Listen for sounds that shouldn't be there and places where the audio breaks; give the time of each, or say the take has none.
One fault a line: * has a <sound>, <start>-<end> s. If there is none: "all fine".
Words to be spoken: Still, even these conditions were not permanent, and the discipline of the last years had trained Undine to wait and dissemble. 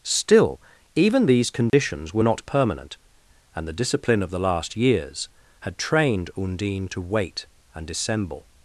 * has a dropout, 1.7-1.7 s